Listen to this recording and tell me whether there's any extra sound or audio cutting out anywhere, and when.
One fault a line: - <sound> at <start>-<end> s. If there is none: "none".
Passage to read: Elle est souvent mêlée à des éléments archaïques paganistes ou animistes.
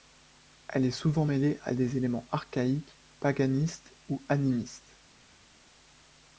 none